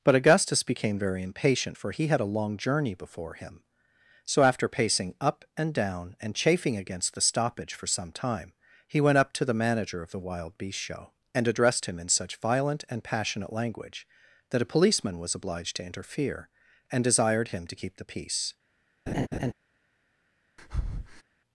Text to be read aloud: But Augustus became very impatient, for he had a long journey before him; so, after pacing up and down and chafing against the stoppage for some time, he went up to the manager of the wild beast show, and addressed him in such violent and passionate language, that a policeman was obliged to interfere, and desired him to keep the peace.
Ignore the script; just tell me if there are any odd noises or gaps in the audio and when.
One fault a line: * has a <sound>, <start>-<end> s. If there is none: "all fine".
* has a laugh, 19.1-19.5 s
* has a breath, 20.6-21.2 s